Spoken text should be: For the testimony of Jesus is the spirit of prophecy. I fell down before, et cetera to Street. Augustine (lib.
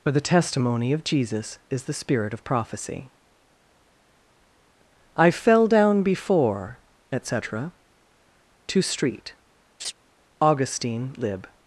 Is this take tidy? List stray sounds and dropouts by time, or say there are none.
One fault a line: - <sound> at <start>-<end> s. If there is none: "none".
- laugh at 9.8-9.9 s